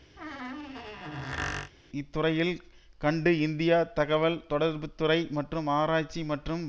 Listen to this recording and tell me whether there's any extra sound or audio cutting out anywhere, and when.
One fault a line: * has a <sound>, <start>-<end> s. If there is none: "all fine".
* has a squeak, 0.2-1.7 s